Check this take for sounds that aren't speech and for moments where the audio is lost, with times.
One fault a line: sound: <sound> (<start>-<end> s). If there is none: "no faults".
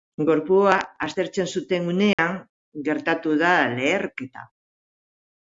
sound: dropout (2.1-2.2 s)